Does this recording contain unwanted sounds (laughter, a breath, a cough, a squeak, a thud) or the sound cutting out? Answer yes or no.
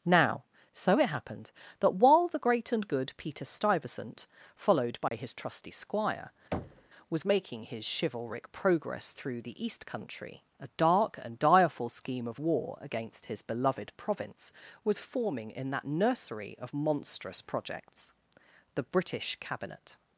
yes